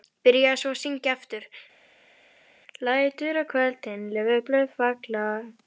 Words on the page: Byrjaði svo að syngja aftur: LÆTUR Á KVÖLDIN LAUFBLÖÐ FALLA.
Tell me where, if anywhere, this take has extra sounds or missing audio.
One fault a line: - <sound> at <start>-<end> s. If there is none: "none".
none